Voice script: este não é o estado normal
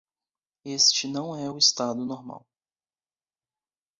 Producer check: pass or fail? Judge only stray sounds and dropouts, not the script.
pass